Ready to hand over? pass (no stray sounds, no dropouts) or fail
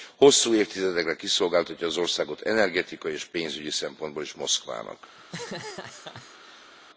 fail